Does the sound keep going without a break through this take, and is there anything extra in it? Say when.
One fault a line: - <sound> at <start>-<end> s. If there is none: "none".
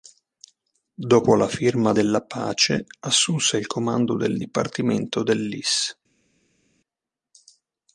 none